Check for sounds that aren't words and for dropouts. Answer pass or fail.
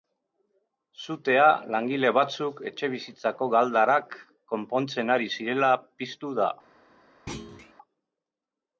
fail